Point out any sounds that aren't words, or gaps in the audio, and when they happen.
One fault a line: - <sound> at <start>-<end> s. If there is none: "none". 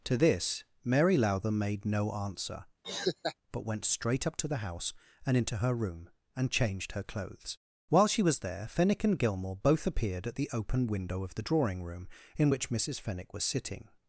- laugh at 2.8-3.4 s